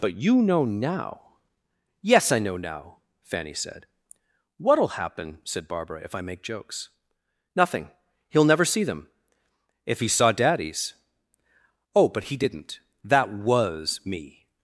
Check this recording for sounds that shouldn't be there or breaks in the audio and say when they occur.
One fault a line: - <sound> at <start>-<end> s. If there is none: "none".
none